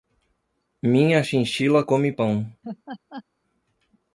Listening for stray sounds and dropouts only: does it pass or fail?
fail